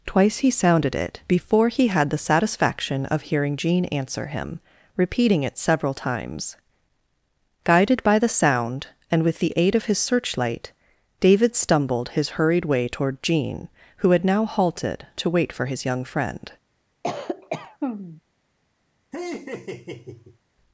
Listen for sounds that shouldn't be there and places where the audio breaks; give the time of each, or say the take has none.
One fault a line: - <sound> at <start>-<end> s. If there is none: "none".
- cough at 17.0-18.2 s
- laugh at 19.1-20.4 s